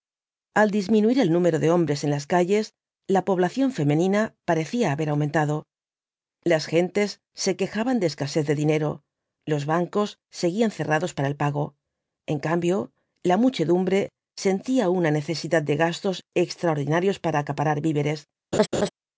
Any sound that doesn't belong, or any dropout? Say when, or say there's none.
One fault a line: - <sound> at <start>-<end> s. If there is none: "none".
- laugh at 18.5-18.9 s